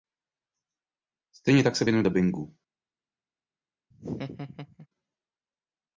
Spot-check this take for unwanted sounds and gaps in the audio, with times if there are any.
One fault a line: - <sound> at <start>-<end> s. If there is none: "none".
- laugh at 3.9-4.9 s